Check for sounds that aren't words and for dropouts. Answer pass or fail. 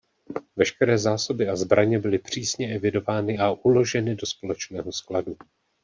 pass